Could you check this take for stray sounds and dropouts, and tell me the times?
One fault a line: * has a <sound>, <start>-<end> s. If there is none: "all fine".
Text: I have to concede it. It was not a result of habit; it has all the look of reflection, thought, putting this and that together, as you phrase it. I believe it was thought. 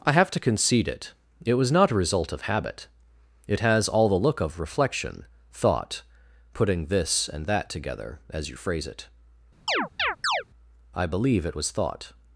* has a chirp, 9.7-10.4 s